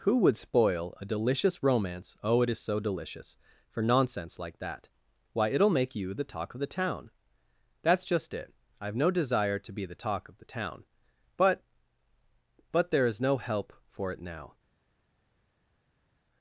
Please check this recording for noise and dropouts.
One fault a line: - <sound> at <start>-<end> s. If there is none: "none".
none